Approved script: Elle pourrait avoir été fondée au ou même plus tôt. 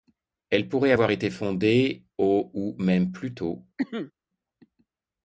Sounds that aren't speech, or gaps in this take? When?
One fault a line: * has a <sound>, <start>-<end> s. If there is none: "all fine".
* has a cough, 3.8-4.1 s